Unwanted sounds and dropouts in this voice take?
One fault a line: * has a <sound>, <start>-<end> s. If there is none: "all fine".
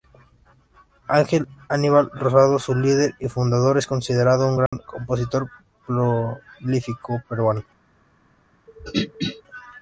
* has a dropout, 4.7-4.7 s
* has a throat clearing, 8.7-9.4 s